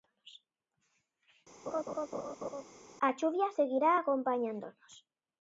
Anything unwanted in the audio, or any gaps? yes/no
yes